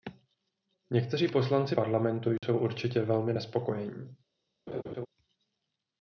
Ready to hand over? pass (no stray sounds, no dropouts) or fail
fail